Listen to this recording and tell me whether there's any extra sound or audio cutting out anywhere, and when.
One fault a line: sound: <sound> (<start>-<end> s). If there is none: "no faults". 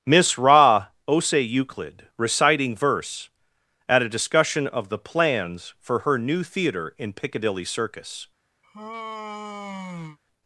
sound: sigh (8.6-10.2 s)